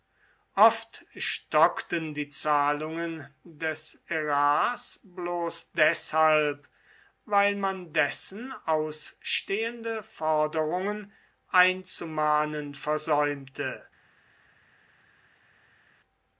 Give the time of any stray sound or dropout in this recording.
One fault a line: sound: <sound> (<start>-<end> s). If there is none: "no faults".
no faults